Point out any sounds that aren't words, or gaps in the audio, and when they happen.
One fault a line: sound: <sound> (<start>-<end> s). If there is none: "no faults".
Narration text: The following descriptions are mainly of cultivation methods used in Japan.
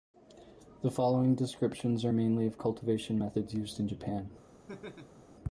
sound: laugh (4.7-5.2 s)